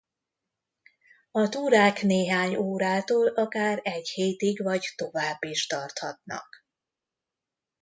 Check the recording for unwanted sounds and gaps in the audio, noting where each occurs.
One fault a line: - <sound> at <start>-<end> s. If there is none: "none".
none